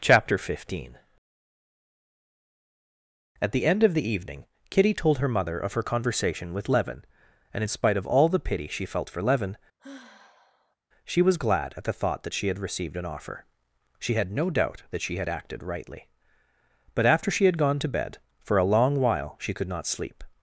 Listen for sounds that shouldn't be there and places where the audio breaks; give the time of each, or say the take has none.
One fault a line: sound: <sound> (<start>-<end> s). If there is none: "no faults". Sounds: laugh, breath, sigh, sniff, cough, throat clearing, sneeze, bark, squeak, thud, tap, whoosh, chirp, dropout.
sound: sigh (9.8-10.8 s)